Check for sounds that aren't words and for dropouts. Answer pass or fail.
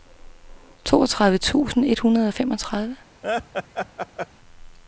fail